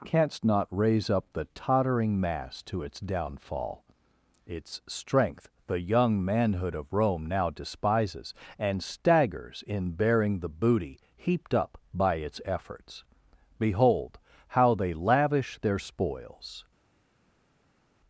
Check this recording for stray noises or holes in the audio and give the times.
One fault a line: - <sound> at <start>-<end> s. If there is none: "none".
none